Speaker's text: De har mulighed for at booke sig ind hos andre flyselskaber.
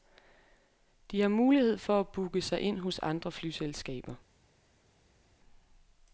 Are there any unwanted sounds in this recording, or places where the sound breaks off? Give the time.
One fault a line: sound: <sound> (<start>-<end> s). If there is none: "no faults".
no faults